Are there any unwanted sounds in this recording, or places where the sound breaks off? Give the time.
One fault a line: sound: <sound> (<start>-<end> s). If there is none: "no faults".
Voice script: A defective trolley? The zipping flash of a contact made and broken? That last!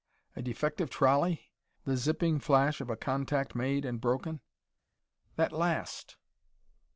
no faults